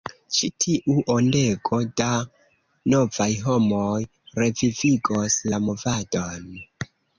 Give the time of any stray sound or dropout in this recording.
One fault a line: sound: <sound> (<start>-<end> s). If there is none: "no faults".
no faults